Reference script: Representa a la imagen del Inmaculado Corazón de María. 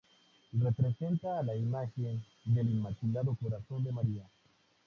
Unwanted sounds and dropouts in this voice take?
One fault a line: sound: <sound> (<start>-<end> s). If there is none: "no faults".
no faults